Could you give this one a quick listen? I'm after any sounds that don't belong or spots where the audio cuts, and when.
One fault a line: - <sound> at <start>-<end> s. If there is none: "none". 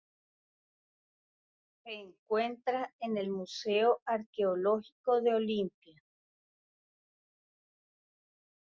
none